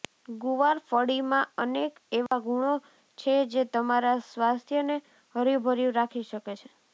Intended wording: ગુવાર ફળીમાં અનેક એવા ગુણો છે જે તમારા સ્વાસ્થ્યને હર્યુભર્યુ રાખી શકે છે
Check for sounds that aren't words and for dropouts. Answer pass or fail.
fail